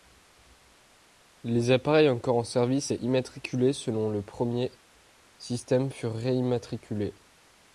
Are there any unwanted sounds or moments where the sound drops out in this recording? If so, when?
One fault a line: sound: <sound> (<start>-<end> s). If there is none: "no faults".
no faults